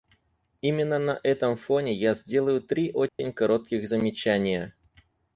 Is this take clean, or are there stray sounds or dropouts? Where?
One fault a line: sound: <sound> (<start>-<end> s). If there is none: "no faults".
sound: dropout (3.1-3.2 s)